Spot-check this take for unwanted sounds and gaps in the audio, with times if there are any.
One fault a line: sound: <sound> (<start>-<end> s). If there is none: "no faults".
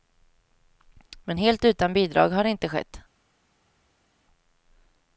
no faults